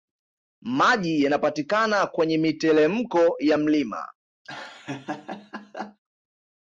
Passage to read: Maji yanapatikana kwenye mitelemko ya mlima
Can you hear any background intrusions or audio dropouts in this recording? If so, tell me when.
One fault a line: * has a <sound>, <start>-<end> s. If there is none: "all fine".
* has a laugh, 4.4-6.0 s